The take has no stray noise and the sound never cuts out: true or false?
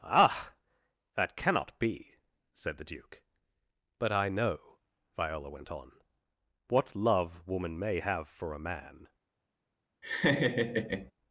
false